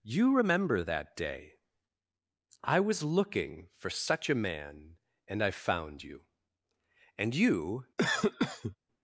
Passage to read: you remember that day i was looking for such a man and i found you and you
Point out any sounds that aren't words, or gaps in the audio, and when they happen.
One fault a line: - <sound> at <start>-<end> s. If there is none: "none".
- cough at 8.0-8.8 s